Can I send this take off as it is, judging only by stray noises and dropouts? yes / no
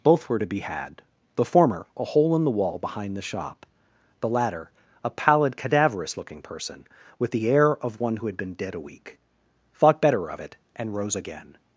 yes